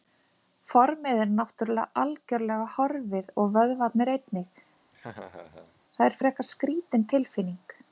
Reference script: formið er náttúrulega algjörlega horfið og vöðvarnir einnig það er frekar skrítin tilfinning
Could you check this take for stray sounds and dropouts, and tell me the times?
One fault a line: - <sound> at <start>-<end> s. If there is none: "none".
- laugh at 4.9-5.8 s